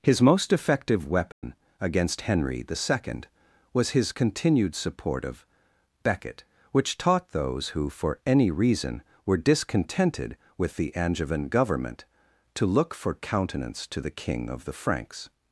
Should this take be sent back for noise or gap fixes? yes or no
yes